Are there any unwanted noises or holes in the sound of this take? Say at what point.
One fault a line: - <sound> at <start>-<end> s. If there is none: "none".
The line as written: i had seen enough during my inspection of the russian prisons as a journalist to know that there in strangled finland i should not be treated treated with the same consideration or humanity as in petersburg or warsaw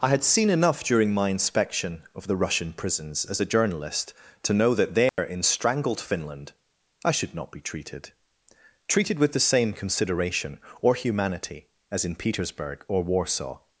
- dropout at 5.1-5.2 s